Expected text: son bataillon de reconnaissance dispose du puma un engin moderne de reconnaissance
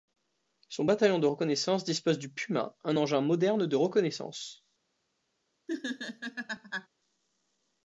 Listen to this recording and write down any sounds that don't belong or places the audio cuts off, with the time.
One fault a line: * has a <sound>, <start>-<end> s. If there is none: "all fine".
* has a laugh, 5.7-6.9 s